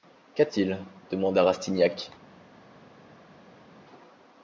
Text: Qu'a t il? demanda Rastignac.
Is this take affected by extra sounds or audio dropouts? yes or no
no